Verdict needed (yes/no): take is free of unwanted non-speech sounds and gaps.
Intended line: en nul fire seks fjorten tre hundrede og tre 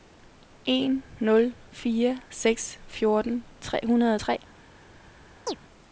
no